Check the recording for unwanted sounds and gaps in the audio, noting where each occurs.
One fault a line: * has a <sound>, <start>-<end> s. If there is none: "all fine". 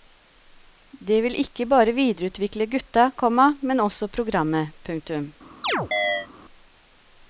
* has a chirp, 5.6-6.3 s